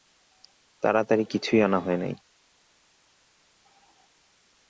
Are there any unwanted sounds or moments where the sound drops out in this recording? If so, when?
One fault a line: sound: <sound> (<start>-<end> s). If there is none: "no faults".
no faults